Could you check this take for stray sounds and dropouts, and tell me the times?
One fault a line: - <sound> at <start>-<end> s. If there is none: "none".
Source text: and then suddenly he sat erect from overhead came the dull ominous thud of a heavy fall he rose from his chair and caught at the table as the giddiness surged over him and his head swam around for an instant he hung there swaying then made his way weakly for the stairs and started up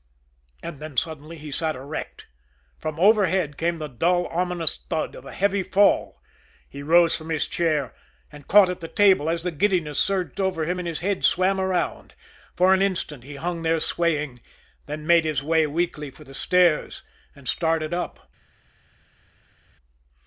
none